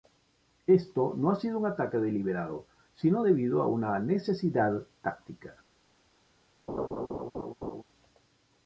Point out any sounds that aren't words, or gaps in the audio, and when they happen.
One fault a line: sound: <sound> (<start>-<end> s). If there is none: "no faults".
sound: laugh (6.7-7.8 s)